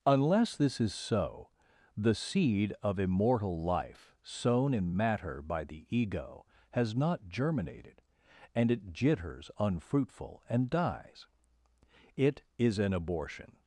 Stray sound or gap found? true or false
false